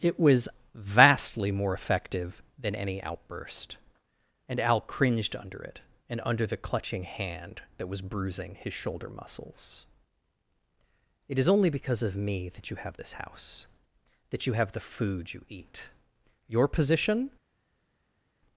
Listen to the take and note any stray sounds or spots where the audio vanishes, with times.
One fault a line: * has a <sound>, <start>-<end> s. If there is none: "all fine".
all fine